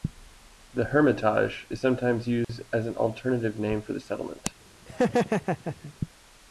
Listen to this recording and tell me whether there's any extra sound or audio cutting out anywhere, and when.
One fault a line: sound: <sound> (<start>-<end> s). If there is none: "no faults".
sound: dropout (2.4-2.5 s)
sound: laugh (4.9-5.9 s)